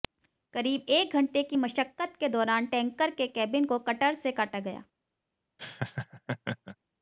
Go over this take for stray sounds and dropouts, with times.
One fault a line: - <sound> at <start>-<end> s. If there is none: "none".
- laugh at 5.6-6.8 s